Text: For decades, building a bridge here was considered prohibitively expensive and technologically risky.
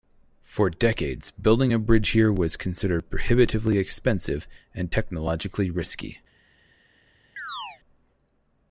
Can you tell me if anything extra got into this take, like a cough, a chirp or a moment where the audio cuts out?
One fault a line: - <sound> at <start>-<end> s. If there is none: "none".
- chirp at 7.4-7.8 s